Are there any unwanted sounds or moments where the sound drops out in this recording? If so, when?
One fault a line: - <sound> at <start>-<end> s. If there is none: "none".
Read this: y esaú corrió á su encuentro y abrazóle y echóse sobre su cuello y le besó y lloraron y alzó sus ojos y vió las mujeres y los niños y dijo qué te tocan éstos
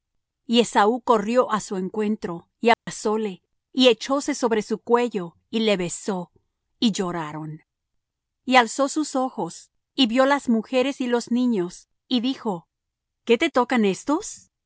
- dropout at 2.7-2.9 s